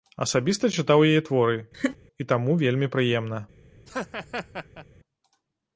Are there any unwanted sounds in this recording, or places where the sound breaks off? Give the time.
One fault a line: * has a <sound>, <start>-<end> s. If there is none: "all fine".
* has a laugh, 1.7-2.0 s
* has a laugh, 3.9-4.9 s